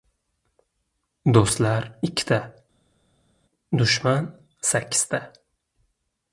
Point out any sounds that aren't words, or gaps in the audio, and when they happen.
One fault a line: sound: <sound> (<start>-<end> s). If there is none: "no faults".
no faults